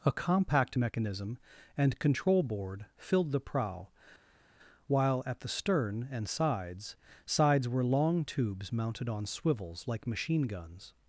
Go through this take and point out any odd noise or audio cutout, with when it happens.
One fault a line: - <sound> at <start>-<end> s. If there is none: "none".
none